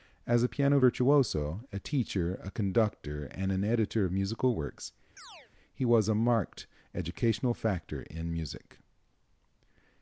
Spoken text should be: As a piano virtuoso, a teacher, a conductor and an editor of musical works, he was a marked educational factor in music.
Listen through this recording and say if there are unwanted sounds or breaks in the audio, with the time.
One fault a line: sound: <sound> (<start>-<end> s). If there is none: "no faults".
sound: chirp (5.2-5.5 s)